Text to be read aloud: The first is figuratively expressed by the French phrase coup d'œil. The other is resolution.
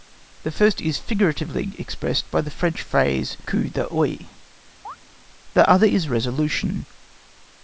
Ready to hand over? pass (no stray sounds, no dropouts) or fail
fail